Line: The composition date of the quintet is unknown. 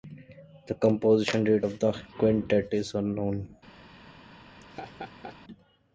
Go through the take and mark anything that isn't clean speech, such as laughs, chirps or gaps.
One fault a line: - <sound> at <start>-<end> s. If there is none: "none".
- laugh at 4.6-5.4 s